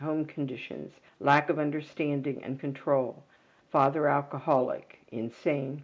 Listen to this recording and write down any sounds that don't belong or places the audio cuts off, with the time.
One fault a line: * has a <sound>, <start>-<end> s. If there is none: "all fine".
all fine